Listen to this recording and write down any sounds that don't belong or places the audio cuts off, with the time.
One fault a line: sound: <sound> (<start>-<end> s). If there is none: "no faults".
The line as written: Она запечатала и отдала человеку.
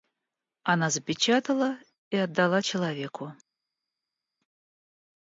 no faults